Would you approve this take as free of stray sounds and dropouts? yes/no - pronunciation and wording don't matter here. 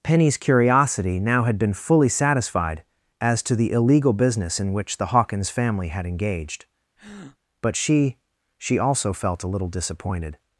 no